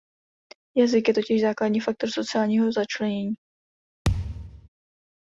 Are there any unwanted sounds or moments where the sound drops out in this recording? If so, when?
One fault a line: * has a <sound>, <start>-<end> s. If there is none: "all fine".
* has a thud, 4.0-4.7 s